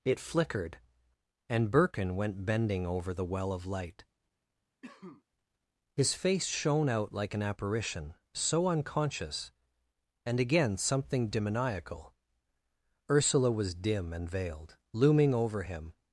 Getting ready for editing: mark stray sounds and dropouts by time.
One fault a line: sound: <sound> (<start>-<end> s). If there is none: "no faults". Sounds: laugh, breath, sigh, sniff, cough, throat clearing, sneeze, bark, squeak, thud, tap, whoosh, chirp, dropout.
sound: cough (4.8-5.2 s)